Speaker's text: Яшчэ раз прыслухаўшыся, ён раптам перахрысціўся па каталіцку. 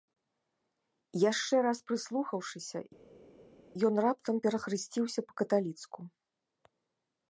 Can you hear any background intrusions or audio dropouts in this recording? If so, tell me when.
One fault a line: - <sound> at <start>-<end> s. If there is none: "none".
none